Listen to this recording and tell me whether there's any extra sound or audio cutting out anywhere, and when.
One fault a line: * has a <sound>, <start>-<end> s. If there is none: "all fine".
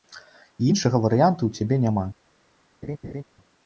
* has a laugh, 2.8-3.2 s